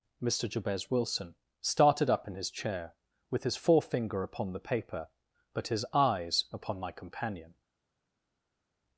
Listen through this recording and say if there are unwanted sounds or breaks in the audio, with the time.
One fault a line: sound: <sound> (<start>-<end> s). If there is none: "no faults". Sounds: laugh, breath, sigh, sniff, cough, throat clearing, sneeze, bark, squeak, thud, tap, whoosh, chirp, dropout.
no faults